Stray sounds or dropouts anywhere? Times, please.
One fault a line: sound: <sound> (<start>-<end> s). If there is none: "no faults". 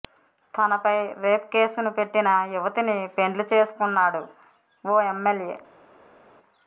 no faults